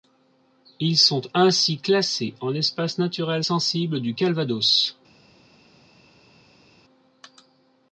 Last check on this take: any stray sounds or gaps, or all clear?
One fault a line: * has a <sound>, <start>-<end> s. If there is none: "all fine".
all fine